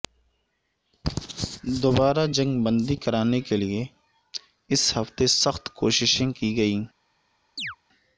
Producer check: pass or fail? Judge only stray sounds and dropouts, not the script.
fail